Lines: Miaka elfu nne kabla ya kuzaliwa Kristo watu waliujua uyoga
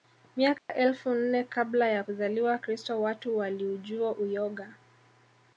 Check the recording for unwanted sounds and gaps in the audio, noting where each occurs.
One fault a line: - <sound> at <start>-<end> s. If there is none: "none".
- dropout at 0.6-0.7 s